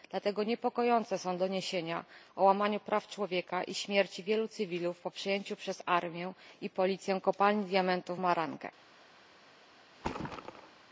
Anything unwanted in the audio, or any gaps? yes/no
yes